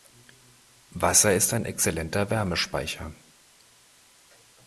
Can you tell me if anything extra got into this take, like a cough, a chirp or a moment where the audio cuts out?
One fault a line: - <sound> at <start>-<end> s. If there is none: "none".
none